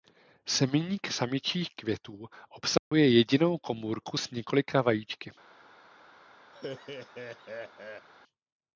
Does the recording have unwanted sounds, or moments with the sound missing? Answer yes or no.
yes